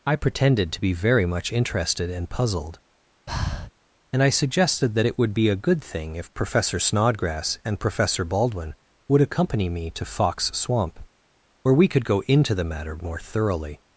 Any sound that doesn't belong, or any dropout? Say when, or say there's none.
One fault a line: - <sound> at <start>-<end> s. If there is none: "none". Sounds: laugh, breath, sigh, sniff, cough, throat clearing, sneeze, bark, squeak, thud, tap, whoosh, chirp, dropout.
- breath at 3.3-3.7 s